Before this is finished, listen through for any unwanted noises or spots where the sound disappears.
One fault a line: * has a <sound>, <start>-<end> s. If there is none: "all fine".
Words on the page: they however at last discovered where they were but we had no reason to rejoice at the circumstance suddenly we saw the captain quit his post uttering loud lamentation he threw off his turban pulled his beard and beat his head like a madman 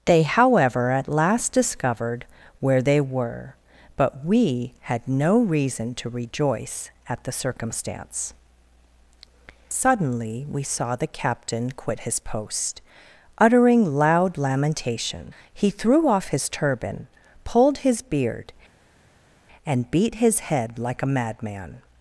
all fine